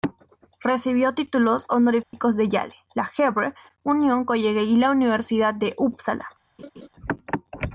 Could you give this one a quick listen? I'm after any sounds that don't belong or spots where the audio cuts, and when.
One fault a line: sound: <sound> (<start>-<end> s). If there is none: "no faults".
sound: dropout (2.0-2.1 s)
sound: laugh (6.6-6.9 s)